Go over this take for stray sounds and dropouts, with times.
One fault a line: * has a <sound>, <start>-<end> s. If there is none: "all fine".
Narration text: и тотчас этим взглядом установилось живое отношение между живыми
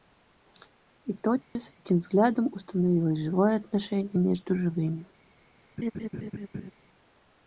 * has a dropout, 1.4-1.6 s
* has a laugh, 5.8-6.7 s